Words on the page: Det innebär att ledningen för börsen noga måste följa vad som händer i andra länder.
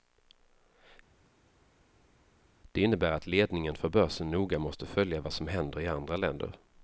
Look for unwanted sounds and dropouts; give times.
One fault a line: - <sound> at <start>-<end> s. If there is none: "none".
none